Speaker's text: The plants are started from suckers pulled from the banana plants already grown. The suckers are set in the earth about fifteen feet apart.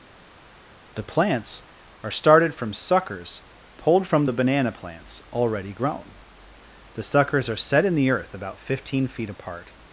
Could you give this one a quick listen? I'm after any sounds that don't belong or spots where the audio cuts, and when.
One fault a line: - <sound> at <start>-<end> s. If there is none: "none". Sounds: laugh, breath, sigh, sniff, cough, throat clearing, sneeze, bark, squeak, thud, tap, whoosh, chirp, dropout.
none